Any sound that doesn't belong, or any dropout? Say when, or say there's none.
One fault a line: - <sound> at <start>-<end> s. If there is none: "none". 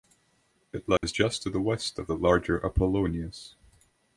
- dropout at 1.0-1.0 s